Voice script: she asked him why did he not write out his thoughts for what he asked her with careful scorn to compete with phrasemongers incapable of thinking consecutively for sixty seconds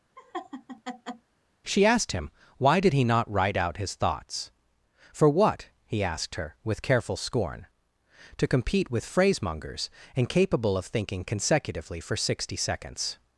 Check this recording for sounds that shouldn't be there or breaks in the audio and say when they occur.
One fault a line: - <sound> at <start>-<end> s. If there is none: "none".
- laugh at 0.2-1.3 s